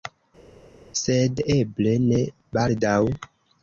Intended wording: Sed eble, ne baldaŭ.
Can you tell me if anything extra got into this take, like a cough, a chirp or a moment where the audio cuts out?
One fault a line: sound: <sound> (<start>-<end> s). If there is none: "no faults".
no faults